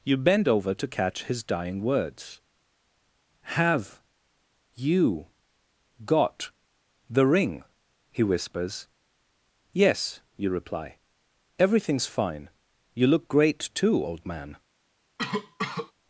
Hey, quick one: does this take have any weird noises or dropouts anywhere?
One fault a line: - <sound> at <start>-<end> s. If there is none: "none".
- cough at 15.2-15.9 s